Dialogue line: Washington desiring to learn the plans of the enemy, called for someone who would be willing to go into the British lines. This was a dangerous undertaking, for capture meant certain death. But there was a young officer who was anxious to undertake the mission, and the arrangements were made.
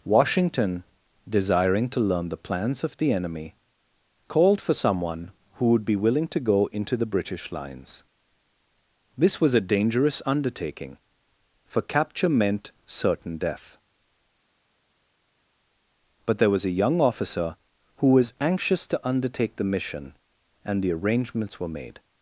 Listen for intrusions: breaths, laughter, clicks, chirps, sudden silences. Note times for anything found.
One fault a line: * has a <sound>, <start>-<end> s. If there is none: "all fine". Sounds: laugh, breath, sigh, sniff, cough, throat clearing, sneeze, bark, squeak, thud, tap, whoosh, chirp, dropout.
all fine